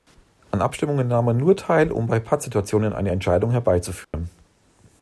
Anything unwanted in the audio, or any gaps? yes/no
yes